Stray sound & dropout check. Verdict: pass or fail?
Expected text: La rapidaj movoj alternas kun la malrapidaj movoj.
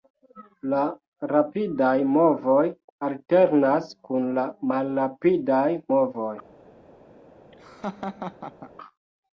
fail